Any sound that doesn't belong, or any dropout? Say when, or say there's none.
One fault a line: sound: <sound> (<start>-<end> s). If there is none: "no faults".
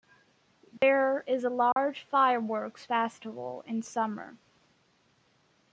sound: dropout (0.8-0.8 s)
sound: dropout (1.7-1.8 s)